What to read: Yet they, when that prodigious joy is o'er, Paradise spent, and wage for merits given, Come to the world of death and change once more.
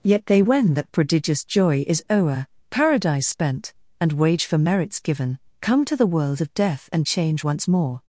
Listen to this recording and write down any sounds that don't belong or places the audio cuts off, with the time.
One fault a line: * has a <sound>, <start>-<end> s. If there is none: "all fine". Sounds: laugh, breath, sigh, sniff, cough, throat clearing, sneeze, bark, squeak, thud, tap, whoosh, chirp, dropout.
all fine